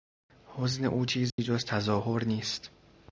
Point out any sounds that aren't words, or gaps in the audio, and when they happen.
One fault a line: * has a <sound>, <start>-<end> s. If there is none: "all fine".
* has a dropout, 1.3-1.4 s